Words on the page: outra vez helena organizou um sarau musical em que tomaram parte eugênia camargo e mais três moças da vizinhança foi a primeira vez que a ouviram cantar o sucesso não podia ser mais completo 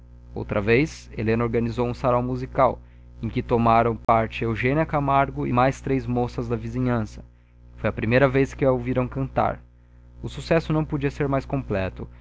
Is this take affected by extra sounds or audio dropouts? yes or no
yes